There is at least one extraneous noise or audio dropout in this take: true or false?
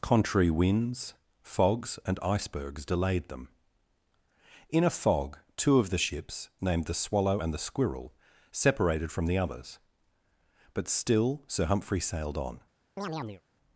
true